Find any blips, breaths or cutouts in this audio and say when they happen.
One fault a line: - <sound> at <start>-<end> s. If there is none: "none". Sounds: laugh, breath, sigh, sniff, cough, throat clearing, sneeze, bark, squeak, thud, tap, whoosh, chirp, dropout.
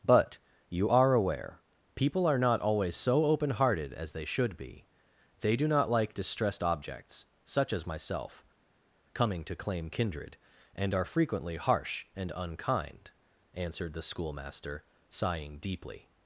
none